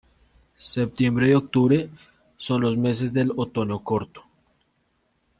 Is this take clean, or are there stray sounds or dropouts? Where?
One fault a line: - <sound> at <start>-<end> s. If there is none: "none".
none